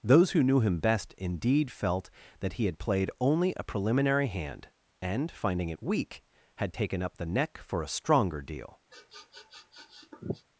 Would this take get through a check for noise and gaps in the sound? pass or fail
fail